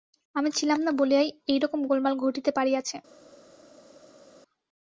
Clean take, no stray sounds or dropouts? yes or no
yes